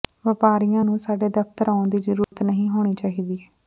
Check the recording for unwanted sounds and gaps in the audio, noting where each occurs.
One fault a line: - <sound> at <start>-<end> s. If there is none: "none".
- dropout at 2.2-2.3 s